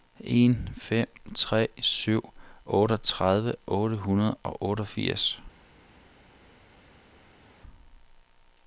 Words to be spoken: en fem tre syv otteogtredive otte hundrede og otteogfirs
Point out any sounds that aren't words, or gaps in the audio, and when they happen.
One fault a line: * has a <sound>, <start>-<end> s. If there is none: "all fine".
all fine